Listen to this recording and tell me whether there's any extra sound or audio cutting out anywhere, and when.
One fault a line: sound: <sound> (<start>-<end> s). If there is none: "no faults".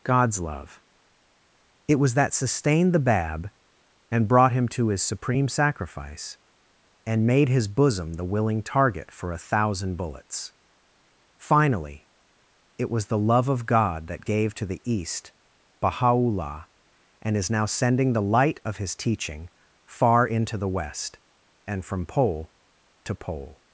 no faults